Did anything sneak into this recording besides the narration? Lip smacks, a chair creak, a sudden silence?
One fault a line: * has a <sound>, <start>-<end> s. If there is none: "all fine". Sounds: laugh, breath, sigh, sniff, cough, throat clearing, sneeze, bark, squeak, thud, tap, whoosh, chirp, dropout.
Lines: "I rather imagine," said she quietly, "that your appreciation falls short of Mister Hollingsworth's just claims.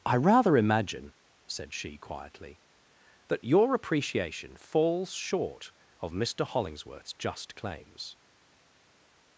all fine